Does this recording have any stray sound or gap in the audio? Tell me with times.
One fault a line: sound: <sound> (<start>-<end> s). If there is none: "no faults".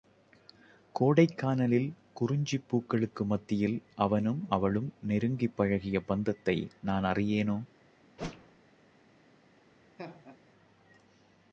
sound: whoosh (8.2-8.6 s)
sound: laugh (10.0-10.4 s)